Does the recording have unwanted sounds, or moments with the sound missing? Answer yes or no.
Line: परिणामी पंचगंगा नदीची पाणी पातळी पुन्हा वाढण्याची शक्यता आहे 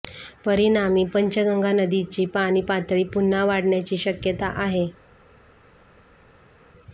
no